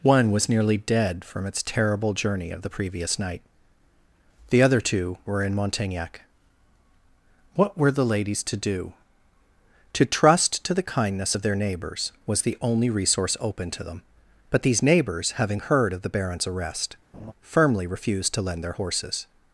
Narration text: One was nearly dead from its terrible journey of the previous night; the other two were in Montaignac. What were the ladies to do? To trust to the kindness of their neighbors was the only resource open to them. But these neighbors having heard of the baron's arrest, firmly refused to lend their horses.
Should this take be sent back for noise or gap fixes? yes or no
yes